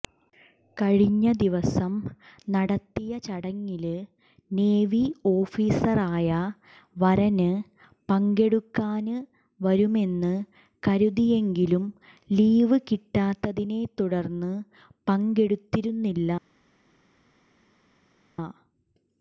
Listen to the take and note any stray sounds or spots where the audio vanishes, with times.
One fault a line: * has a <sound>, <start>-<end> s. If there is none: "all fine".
all fine